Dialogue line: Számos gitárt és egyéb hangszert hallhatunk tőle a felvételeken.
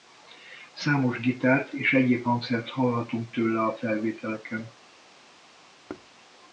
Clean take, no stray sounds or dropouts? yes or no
no